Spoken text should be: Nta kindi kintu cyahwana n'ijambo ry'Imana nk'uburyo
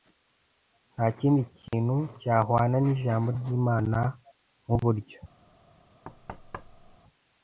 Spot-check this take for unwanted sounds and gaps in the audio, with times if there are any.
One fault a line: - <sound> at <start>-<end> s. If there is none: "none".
- dropout at 1.7-1.7 s
- thud at 6.0-7.0 s